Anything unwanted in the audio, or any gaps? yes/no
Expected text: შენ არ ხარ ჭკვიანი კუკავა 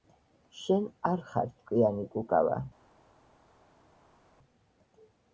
no